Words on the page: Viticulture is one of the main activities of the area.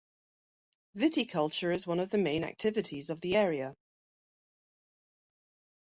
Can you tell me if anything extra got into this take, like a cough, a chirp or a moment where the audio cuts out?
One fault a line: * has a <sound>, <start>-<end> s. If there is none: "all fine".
all fine